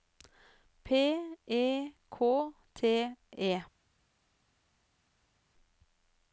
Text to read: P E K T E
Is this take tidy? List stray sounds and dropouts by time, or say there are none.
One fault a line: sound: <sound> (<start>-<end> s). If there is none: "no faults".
no faults